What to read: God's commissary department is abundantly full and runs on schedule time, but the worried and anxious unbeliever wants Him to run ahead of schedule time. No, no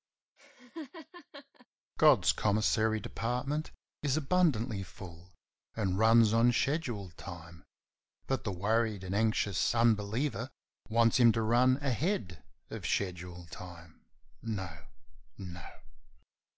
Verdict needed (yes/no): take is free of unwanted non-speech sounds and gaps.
no